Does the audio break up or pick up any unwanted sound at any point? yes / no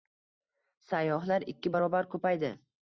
no